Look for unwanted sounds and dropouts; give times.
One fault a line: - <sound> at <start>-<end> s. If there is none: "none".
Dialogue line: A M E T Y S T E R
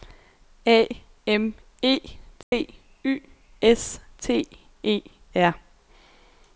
- dropout at 2.4-2.5 s